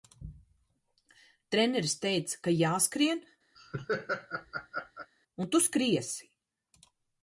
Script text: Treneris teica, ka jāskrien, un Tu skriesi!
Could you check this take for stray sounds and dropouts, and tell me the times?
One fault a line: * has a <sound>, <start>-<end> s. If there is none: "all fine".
* has a laugh, 3.6-5.1 s